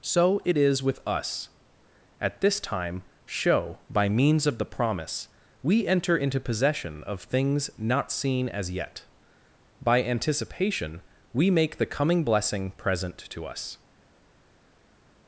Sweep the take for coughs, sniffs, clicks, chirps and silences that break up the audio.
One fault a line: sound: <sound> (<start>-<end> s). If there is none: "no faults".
no faults